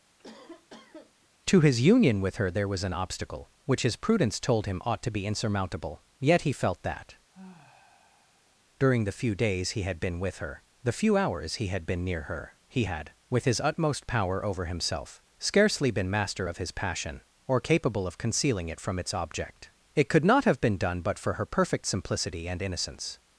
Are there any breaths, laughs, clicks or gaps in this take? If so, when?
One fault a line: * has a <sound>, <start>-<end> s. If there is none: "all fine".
* has a cough, 0.2-1.3 s
* has a sigh, 7.3-8.6 s